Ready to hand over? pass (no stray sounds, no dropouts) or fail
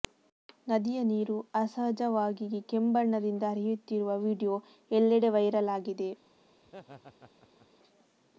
fail